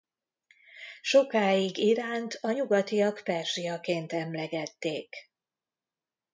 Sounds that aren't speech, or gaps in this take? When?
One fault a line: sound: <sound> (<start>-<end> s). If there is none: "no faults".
no faults